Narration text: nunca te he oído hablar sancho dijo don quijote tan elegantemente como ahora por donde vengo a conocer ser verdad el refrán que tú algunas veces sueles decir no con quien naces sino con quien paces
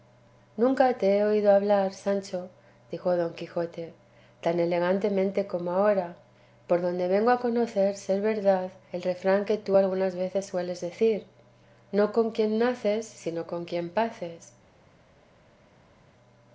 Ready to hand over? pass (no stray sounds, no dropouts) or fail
pass